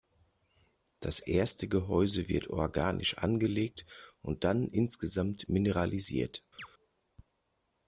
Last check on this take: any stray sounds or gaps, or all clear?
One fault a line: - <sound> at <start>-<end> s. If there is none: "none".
- chirp at 6.6-6.7 s